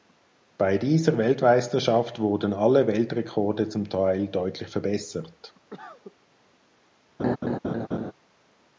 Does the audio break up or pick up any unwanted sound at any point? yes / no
yes